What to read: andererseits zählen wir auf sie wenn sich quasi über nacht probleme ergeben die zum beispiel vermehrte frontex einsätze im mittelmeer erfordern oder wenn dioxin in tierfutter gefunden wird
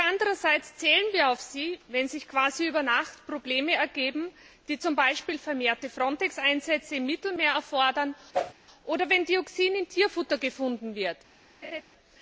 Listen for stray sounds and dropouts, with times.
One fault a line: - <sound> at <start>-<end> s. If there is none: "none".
- whoosh at 8.3-8.5 s
- laugh at 11.6-11.8 s